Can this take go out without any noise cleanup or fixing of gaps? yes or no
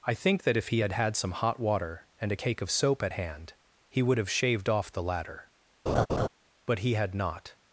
no